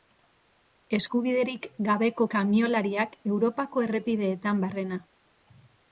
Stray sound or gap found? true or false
false